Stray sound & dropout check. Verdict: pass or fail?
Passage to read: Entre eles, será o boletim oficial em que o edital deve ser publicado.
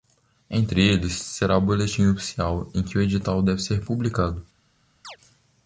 fail